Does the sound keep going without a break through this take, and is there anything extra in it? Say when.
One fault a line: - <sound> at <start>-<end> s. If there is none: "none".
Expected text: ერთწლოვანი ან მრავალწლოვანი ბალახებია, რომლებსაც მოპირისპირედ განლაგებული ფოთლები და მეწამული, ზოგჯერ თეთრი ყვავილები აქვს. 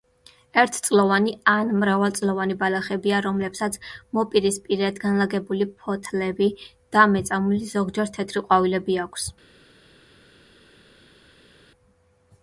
none